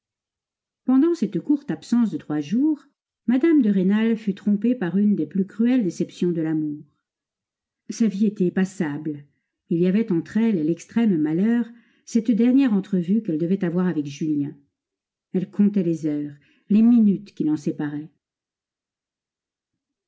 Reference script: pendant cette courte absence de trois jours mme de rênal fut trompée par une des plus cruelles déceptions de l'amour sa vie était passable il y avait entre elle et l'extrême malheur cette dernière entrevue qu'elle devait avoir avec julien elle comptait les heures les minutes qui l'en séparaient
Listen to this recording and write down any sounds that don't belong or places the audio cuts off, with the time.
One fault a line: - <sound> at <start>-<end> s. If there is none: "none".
none